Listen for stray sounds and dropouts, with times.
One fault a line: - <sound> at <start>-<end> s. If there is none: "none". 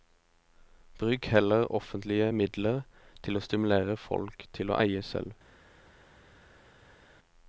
none